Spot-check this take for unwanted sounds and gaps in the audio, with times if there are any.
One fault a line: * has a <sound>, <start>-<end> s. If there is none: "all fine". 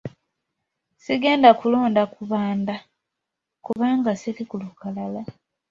* has a dropout, 3.7-3.8 s